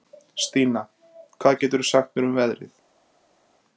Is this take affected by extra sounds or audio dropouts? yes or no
no